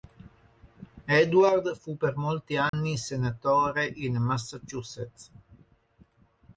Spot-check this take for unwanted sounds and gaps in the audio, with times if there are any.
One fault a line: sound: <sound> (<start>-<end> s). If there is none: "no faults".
sound: dropout (2.7-2.7 s)